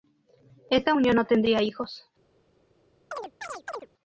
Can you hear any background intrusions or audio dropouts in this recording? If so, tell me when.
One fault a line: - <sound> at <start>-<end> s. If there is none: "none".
- chirp at 3.1-3.9 s